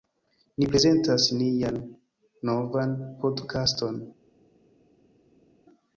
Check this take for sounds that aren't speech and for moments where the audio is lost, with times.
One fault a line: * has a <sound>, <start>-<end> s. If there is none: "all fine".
all fine